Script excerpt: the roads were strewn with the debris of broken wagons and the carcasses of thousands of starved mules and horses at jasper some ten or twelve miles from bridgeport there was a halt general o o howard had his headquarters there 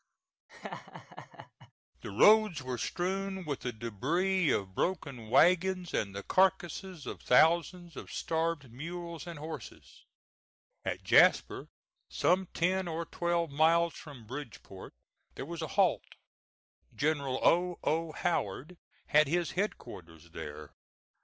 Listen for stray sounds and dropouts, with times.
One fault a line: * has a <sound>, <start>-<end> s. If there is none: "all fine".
* has a laugh, 0.5-1.7 s